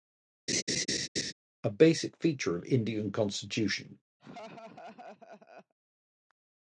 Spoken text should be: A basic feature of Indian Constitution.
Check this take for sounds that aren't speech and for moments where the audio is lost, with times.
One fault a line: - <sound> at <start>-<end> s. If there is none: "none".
- laugh at 0.5-1.3 s
- laugh at 4.2-5.7 s